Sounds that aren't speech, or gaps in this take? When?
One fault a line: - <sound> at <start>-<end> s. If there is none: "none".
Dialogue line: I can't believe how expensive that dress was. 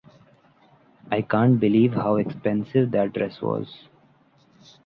none